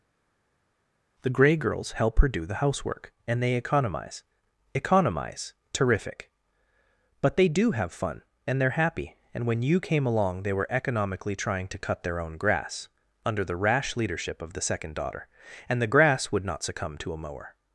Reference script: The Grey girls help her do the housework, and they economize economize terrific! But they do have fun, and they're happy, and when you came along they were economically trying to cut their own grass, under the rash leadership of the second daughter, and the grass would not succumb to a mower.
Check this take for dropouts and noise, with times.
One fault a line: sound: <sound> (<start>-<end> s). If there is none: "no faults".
no faults